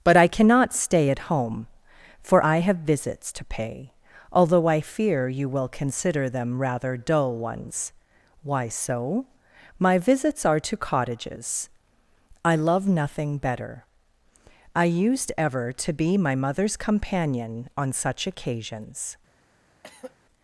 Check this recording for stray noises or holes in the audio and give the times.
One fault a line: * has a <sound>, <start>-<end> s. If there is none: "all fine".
* has a throat clearing, 19.8-20.2 s